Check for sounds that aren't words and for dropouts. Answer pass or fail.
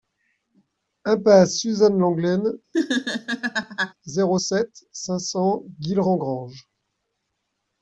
fail